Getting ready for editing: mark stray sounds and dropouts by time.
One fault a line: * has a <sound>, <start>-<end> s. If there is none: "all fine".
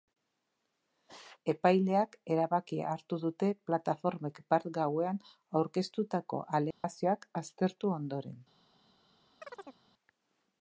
* has a dropout, 6.7-6.8 s
* has a chirp, 9.4-9.8 s